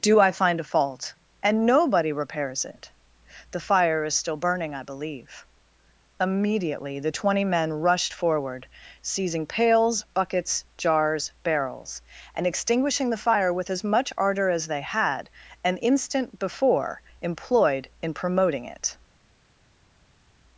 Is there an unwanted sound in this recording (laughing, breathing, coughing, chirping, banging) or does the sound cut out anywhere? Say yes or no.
no